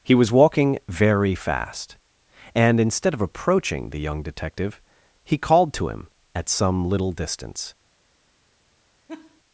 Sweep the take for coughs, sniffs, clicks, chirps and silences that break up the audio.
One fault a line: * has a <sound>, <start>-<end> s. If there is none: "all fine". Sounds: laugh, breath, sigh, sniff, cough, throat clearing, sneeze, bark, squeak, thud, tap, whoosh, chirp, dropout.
* has a laugh, 9.1-9.4 s